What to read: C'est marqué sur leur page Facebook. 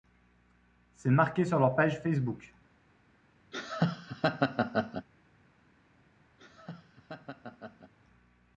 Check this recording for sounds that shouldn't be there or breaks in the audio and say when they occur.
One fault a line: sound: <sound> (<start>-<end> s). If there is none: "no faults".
sound: laugh (3.5-5.1 s)
sound: laugh (6.4-7.9 s)